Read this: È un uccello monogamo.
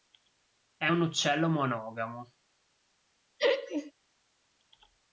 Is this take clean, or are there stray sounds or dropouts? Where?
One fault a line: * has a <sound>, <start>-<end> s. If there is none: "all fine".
* has a laugh, 3.4-3.9 s